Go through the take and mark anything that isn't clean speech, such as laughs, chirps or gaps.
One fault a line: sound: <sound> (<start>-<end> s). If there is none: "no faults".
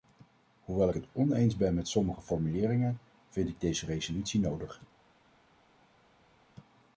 no faults